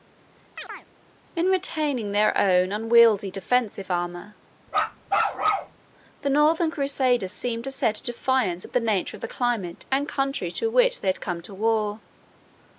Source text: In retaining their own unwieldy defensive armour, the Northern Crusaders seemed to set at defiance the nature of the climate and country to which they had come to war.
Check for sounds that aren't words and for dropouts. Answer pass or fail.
fail